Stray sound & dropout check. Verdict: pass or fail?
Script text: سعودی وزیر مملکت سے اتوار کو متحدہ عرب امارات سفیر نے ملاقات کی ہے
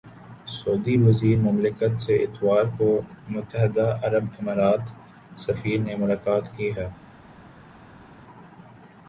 pass